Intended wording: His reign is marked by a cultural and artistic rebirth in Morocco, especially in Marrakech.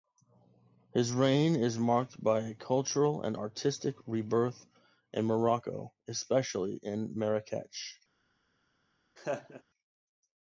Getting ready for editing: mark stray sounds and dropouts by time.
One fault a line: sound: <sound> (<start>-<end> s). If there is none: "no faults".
sound: laugh (9.2-9.6 s)